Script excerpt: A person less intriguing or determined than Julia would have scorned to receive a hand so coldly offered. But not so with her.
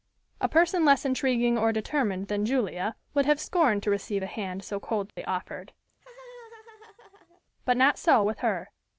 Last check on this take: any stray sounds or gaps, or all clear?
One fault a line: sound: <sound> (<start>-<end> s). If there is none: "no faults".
sound: dropout (5.1-5.2 s)
sound: laugh (5.9-7.4 s)